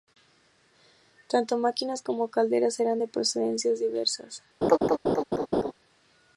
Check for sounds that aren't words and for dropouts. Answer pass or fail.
fail